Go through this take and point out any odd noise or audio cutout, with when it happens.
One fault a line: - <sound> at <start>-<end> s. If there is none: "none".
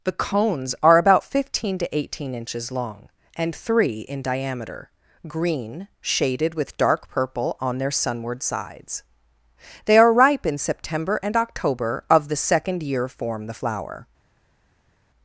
none